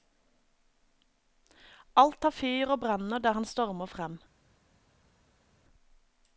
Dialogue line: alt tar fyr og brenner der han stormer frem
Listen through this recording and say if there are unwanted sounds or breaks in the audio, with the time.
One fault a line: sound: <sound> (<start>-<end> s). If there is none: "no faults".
no faults